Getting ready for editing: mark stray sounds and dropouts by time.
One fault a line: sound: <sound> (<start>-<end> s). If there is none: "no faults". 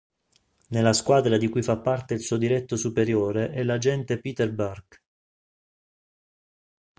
no faults